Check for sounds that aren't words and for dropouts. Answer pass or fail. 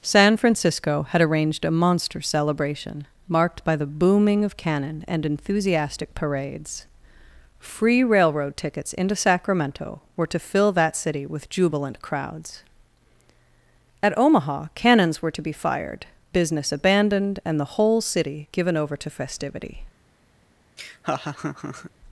fail